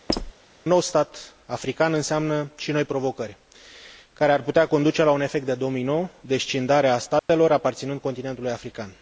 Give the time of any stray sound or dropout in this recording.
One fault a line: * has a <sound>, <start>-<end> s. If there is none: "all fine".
* has a squeak, 0.1-0.3 s
* has a dropout, 7.2-7.3 s